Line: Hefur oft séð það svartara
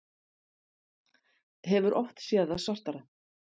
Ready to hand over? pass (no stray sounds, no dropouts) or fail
pass